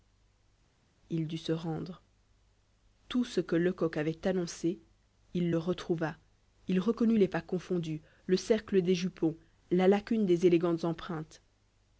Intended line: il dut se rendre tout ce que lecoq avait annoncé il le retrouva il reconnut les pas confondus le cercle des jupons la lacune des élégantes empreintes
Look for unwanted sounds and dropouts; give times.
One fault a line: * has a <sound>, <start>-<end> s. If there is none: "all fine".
all fine